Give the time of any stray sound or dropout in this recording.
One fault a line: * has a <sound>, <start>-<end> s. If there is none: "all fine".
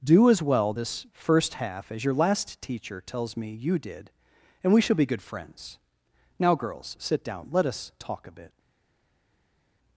all fine